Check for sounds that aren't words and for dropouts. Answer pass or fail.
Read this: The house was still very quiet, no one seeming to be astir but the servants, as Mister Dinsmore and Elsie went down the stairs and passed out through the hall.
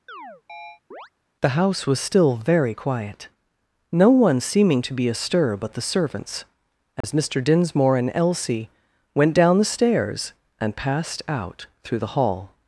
fail